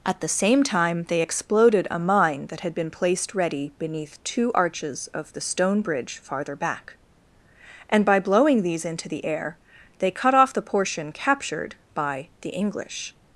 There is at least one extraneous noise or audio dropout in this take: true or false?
false